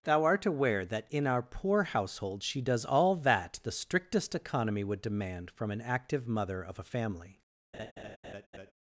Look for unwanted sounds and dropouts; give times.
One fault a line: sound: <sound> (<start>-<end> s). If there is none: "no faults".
sound: laugh (7.7-8.7 s)